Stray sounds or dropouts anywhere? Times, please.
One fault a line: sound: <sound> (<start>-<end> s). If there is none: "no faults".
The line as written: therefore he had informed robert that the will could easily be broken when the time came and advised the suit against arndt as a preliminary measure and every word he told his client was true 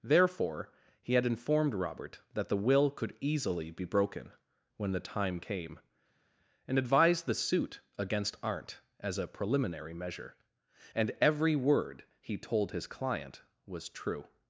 no faults